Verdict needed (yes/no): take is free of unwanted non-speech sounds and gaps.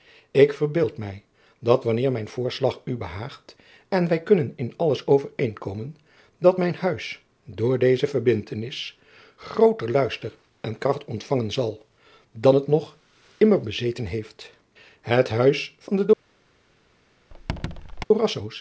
no